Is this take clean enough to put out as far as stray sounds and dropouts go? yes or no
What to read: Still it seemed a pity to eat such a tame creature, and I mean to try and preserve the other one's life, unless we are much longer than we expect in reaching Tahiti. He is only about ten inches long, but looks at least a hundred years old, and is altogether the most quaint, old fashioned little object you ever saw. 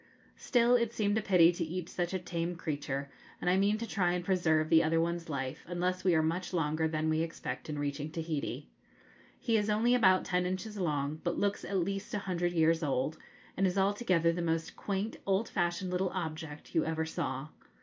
yes